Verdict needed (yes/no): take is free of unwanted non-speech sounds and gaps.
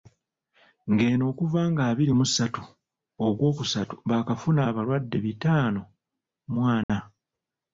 no